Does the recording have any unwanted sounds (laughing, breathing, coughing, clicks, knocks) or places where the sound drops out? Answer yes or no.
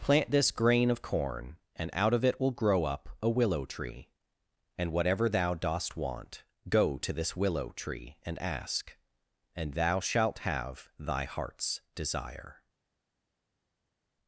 no